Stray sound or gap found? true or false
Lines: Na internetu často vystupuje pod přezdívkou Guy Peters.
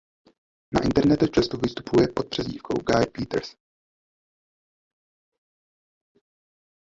false